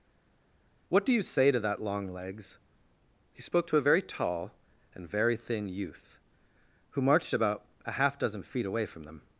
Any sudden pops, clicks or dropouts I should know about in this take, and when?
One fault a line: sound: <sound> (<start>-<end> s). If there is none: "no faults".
no faults